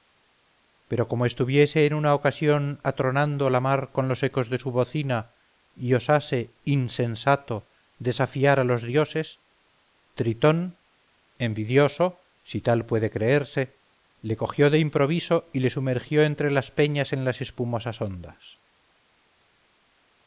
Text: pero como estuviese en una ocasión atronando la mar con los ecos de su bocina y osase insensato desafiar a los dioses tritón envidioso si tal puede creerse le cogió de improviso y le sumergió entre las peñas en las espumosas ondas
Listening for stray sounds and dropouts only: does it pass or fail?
pass